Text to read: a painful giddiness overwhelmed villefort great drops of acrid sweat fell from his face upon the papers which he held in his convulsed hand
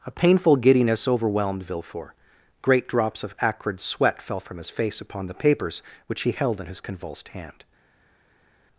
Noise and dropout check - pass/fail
pass